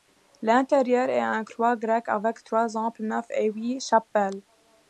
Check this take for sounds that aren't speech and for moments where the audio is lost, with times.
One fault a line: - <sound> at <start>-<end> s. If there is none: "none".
none